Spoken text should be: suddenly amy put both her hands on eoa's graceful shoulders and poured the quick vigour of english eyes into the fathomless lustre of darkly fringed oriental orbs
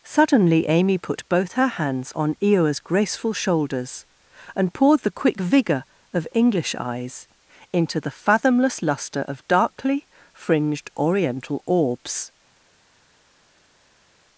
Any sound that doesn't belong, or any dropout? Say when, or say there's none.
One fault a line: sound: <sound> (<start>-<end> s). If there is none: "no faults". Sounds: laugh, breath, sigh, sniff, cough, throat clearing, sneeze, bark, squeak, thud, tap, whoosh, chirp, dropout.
no faults